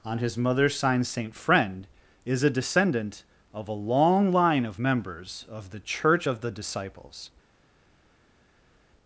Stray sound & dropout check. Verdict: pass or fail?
pass